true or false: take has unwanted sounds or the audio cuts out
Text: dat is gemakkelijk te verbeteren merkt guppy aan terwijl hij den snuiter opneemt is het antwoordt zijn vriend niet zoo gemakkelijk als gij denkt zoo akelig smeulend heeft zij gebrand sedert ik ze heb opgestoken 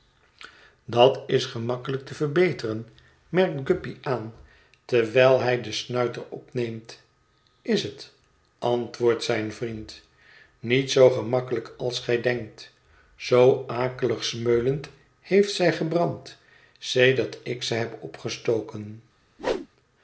true